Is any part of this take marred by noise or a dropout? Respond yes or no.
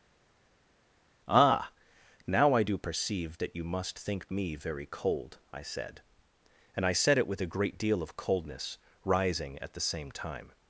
no